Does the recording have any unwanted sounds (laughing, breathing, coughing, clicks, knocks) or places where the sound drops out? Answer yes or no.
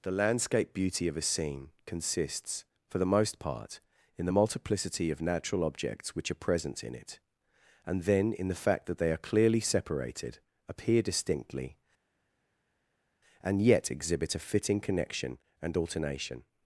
no